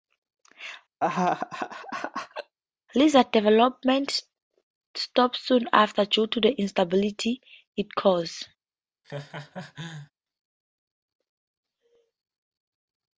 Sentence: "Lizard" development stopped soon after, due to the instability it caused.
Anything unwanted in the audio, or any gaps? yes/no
yes